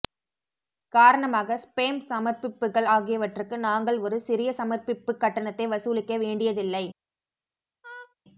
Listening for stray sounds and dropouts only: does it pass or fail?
fail